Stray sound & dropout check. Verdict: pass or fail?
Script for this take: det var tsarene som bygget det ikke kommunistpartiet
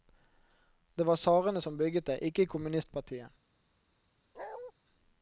fail